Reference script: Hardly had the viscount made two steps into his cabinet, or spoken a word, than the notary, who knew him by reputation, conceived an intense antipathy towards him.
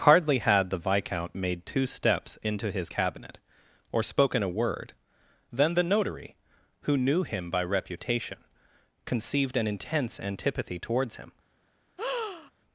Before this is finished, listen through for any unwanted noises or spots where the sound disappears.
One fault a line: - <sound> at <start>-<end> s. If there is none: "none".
- breath at 12.0-12.5 s